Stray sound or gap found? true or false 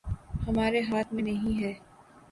false